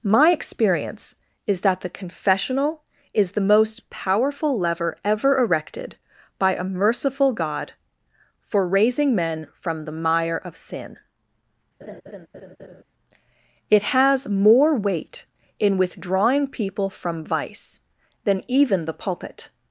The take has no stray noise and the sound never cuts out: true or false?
false